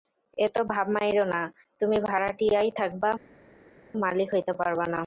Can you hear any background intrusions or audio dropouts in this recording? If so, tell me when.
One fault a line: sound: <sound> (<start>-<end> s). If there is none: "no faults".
no faults